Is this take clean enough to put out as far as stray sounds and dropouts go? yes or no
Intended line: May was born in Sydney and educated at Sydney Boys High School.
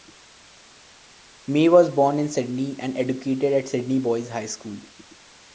yes